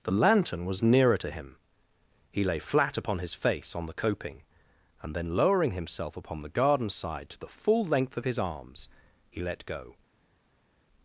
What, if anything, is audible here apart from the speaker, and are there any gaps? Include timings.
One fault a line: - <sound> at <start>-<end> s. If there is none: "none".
none